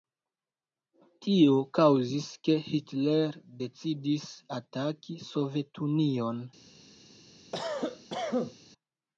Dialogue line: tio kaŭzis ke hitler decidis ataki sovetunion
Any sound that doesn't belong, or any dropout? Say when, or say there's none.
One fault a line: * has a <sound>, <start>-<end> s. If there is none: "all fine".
* has a cough, 7.5-8.5 s